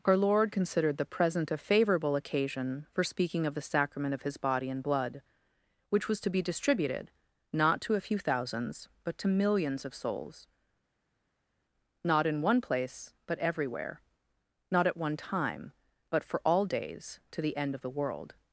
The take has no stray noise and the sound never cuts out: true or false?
true